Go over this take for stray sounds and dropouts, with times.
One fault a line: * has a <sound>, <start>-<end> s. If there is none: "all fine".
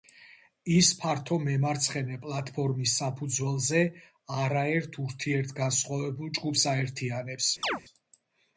* has a chirp, 7.6-7.8 s